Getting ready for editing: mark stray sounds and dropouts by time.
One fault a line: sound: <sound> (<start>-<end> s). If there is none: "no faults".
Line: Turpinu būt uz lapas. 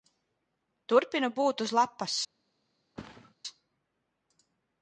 sound: thud (3.0-3.3 s)